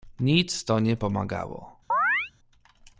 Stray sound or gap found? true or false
true